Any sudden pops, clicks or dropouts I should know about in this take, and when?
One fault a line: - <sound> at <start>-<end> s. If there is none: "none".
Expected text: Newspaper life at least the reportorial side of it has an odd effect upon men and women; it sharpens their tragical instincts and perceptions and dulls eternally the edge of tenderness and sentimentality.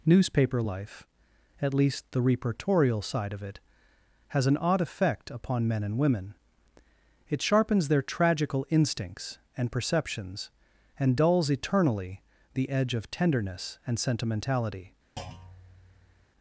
- thud at 15.2-16.3 s